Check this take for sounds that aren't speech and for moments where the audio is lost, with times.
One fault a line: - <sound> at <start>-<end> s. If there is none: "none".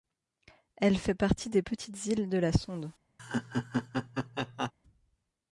- laugh at 3.2-4.7 s